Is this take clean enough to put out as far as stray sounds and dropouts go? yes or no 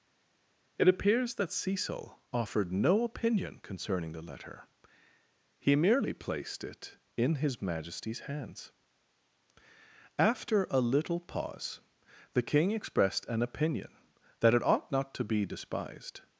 yes